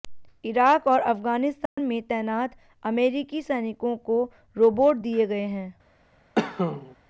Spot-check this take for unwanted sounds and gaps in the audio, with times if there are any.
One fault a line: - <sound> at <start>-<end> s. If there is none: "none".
- dropout at 1.7-1.8 s
- cough at 6.4-7.0 s